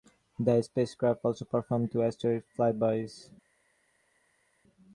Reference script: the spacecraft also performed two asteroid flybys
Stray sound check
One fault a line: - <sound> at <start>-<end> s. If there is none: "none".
none